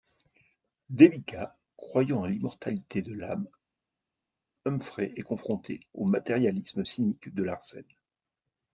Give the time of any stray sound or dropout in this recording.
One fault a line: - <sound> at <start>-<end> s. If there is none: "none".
none